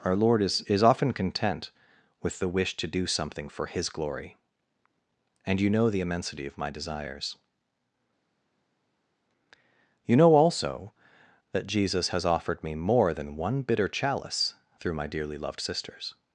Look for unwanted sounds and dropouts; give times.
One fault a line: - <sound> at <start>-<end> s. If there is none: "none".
none